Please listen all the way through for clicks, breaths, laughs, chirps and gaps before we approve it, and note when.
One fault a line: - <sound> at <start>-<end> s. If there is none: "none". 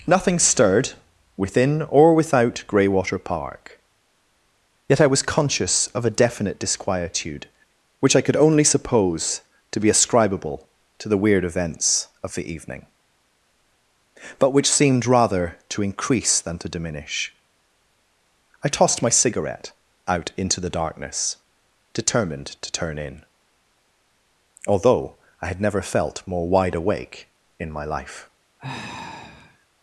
- sigh at 28.6-29.7 s